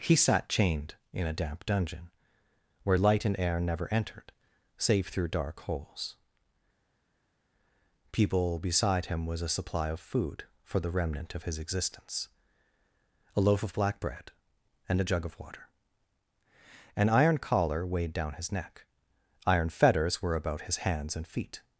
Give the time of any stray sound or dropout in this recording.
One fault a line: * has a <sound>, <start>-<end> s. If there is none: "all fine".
all fine